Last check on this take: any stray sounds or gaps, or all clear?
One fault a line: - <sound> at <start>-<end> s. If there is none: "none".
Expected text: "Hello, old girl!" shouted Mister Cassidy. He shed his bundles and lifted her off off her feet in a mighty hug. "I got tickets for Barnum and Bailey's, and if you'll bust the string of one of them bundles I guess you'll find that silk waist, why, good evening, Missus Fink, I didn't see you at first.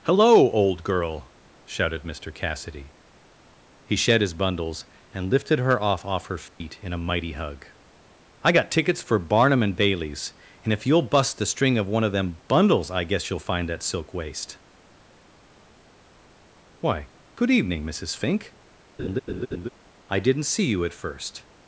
- dropout at 6.5-6.6 s
- laugh at 19.0-19.7 s